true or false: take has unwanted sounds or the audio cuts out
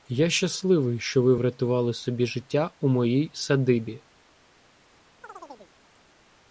true